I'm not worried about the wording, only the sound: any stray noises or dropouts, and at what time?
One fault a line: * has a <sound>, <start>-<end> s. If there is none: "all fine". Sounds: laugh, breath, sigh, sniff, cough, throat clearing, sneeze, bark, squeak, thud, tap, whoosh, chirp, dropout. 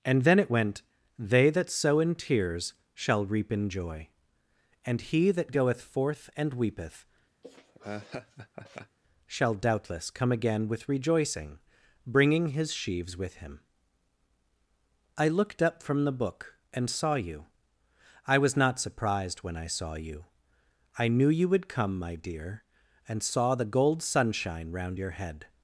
* has a laugh, 7.4-9.0 s